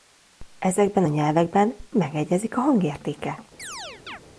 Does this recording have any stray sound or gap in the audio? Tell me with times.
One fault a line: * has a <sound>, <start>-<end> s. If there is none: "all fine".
* has a chirp, 3.6-4.2 s